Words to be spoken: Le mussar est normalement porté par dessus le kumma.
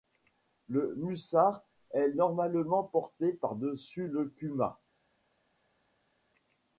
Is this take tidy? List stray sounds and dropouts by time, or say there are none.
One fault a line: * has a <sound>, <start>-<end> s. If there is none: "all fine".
all fine